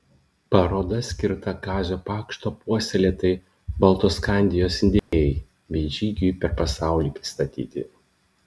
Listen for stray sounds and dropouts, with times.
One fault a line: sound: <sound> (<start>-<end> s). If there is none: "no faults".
sound: dropout (5.0-5.1 s)